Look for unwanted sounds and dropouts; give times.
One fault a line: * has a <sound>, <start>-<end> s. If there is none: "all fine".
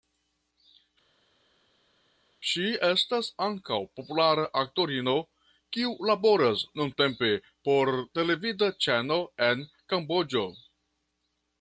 all fine